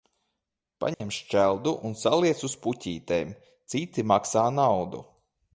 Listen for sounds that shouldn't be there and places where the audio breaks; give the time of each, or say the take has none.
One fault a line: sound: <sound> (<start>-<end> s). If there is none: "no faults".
sound: dropout (0.9-1.0 s)